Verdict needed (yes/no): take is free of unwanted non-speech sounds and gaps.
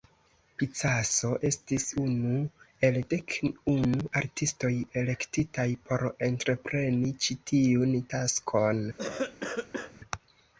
no